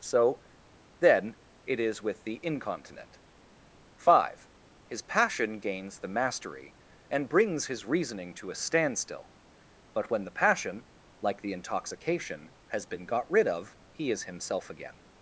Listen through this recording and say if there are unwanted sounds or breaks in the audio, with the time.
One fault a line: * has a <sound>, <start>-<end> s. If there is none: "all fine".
all fine